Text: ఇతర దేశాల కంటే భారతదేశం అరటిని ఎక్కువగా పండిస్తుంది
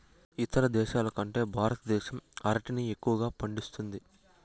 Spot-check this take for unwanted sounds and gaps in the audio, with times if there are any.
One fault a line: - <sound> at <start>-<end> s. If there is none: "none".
none